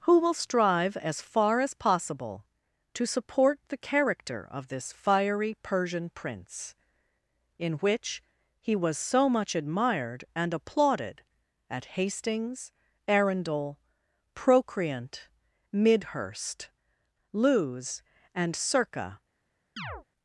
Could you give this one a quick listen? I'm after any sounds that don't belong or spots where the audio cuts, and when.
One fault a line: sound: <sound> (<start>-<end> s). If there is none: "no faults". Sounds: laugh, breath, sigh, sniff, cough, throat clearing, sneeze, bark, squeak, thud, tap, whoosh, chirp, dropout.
sound: chirp (19.8-20.0 s)